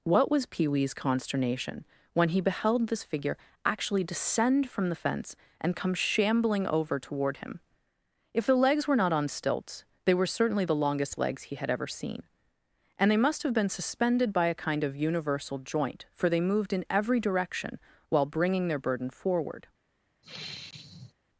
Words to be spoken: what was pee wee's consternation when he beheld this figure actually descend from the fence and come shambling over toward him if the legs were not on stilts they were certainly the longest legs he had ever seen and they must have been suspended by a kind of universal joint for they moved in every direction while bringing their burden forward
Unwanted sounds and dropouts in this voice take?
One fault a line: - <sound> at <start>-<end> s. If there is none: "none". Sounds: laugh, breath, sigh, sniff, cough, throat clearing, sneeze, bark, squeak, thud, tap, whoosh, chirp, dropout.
- sigh at 20.2-21.1 s